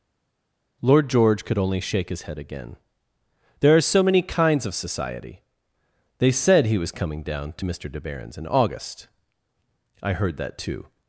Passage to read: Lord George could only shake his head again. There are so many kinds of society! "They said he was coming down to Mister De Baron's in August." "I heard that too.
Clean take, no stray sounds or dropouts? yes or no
yes